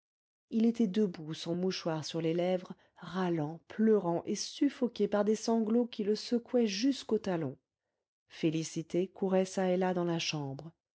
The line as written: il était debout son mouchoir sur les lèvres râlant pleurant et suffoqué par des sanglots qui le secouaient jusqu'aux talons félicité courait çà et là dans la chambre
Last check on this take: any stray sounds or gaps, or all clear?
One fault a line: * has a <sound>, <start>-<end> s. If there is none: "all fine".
all fine